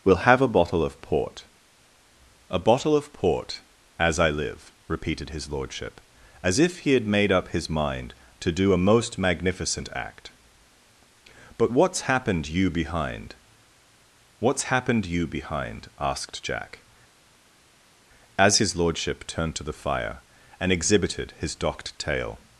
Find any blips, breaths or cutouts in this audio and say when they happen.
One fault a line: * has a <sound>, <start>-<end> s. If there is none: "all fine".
all fine